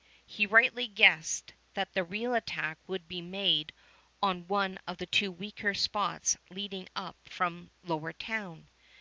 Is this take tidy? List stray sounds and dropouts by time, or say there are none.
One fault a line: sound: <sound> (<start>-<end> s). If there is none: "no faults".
no faults